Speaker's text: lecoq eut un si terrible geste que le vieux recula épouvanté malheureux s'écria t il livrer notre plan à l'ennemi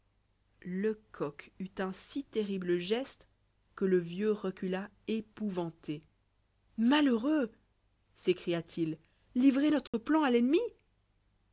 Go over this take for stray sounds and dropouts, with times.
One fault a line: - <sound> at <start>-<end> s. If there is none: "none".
- dropout at 9.9-9.9 s